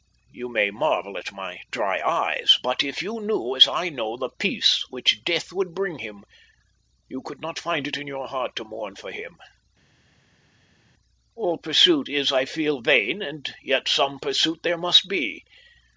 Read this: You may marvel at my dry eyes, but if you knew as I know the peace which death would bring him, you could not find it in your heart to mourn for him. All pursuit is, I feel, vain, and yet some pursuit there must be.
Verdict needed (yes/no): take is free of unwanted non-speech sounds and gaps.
yes